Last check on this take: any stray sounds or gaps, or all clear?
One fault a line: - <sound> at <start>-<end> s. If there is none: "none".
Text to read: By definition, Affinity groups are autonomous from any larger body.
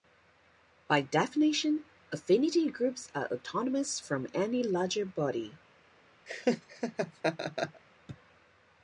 - laugh at 6.3-7.8 s